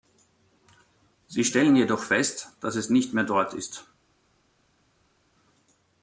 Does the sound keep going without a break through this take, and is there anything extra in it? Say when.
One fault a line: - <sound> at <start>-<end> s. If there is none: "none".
none